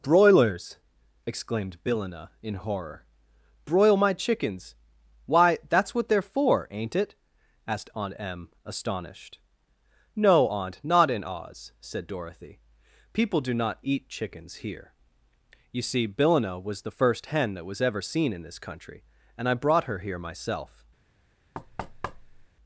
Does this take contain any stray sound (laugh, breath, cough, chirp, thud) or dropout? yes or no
yes